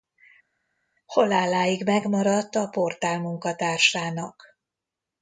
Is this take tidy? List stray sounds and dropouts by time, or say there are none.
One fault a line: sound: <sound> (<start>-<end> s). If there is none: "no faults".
no faults